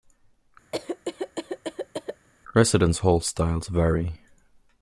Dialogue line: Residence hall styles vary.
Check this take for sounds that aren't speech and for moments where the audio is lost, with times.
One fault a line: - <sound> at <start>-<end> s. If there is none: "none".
- cough at 0.7-2.3 s